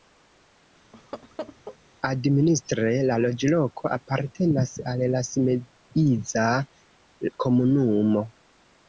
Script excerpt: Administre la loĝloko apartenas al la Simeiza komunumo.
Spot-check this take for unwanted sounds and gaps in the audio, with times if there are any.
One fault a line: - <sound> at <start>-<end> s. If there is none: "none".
- laugh at 0.9-1.8 s